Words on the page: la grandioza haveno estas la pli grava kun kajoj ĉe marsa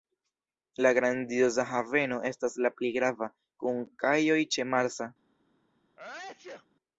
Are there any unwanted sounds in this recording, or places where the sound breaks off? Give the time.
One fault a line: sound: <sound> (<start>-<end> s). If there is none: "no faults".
sound: sneeze (6.0-6.7 s)